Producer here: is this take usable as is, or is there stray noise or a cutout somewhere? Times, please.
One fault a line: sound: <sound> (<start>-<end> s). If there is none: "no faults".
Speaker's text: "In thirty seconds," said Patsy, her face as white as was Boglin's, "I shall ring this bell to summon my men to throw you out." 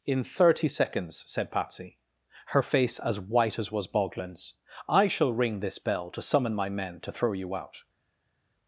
no faults